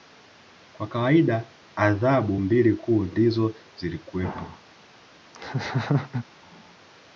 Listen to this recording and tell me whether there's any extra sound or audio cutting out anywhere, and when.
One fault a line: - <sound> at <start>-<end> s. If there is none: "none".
- laugh at 5.3-6.2 s